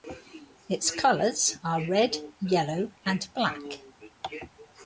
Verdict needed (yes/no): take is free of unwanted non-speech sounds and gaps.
yes